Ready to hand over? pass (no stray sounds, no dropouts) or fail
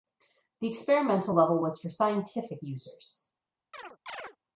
fail